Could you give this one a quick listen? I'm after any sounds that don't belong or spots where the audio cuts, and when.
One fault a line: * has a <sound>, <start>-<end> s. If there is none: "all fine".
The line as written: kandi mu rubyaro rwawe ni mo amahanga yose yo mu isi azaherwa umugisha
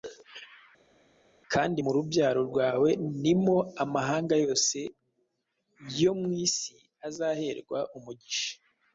all fine